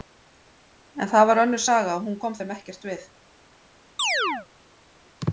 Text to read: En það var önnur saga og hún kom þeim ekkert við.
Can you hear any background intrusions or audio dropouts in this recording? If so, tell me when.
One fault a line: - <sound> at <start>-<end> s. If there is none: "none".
- chirp at 4.0-4.5 s